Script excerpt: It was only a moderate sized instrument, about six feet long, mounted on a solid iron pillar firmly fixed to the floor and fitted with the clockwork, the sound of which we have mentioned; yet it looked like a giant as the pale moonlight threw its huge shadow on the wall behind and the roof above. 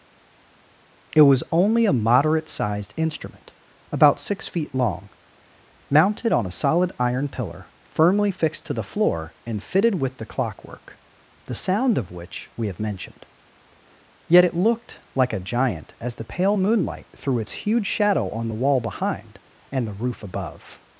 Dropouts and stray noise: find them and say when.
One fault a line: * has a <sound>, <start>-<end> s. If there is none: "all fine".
all fine